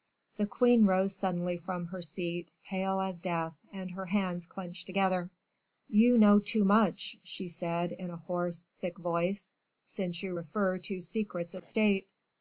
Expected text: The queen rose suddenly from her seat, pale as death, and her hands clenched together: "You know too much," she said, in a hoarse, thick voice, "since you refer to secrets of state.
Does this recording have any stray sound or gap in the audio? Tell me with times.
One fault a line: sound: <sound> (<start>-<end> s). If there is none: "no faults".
no faults